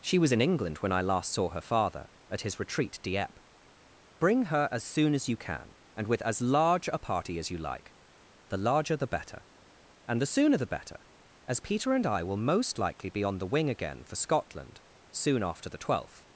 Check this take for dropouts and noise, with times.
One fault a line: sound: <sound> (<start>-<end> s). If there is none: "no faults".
no faults